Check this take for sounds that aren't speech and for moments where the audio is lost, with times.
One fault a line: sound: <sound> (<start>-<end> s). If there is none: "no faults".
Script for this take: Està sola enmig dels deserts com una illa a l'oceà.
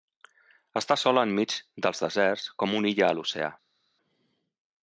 no faults